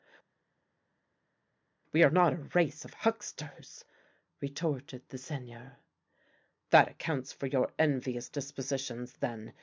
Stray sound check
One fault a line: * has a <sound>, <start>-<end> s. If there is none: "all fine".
all fine